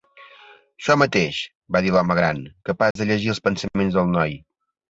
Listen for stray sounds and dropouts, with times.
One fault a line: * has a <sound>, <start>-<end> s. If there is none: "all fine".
* has a dropout, 2.9-3.0 s